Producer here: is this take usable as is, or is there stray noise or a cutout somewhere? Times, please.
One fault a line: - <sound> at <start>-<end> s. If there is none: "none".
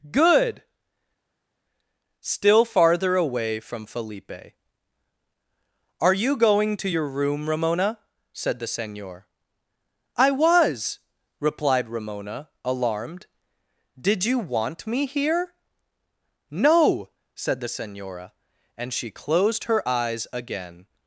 none